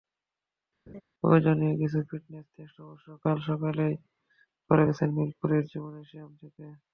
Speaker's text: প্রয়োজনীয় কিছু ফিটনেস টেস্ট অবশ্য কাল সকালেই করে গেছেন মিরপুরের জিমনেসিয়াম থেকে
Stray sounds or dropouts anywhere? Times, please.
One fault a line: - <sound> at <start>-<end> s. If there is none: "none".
- laugh at 0.9-1.0 s